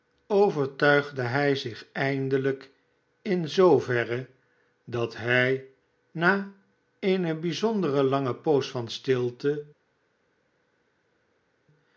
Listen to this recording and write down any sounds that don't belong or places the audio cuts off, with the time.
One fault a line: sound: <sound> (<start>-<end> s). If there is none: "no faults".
no faults